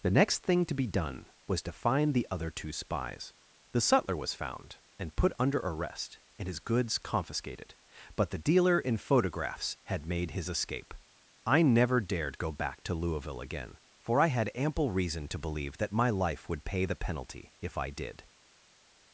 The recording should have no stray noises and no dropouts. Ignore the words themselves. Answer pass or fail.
pass